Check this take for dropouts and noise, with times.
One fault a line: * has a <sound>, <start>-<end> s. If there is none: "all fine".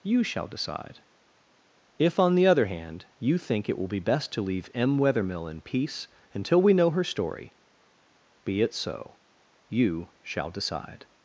all fine